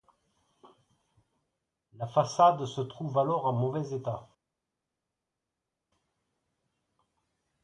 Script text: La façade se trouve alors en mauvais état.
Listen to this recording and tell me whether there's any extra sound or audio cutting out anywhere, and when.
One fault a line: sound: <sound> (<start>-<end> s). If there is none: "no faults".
no faults